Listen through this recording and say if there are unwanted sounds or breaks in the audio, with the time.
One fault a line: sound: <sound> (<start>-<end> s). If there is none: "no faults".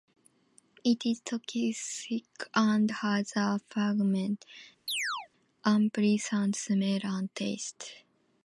sound: chirp (4.9-5.3 s)